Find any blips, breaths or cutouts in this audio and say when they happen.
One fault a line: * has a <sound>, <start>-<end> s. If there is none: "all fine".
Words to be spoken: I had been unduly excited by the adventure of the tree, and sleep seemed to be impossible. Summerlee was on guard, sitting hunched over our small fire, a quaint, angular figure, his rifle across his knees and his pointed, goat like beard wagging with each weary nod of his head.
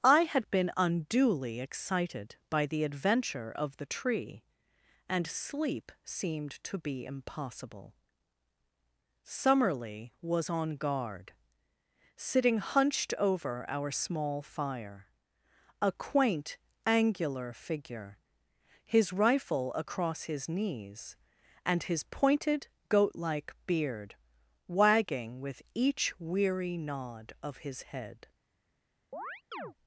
* has a chirp, 29.1-29.7 s